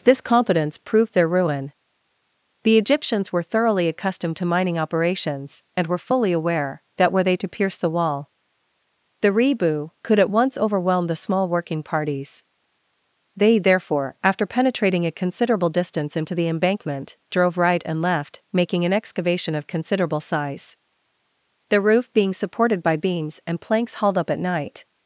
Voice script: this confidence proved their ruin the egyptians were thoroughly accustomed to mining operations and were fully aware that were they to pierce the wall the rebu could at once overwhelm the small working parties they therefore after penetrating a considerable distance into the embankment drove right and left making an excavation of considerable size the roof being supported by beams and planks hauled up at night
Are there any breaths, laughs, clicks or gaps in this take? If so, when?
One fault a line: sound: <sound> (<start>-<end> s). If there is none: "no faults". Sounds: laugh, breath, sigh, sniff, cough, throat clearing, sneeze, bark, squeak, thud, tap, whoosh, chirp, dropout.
no faults